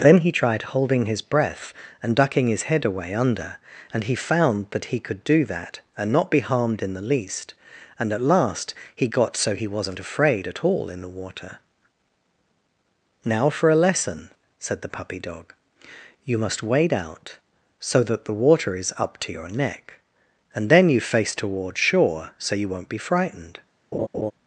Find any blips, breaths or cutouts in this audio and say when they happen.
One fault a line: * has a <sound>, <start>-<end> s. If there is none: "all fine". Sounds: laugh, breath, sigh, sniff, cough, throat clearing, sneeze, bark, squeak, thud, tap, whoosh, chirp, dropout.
* has a laugh, 23.9-24.3 s